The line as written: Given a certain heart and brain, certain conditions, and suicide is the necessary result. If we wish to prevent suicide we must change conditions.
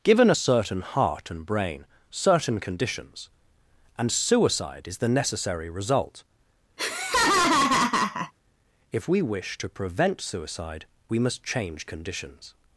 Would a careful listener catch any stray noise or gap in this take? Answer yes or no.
yes